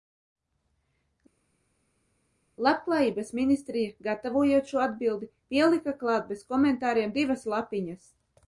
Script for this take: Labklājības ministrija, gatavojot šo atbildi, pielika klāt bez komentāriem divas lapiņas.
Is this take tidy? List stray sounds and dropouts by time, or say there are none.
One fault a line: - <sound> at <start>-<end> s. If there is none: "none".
none